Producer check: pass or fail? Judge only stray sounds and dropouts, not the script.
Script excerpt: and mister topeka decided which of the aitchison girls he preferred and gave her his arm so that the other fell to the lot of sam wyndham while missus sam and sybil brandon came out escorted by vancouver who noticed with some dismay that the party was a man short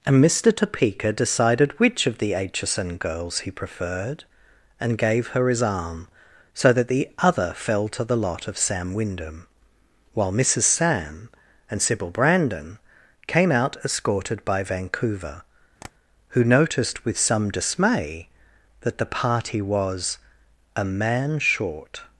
fail